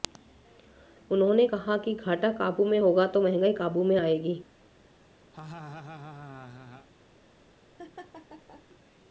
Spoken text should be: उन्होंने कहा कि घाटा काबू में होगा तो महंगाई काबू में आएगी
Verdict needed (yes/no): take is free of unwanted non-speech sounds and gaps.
no